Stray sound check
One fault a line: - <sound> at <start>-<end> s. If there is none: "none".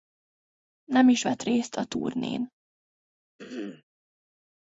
- throat clearing at 3.4-3.8 s